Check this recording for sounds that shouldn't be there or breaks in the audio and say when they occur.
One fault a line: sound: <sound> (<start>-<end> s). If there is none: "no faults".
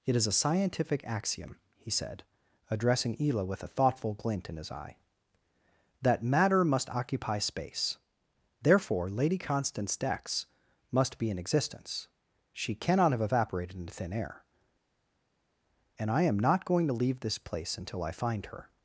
no faults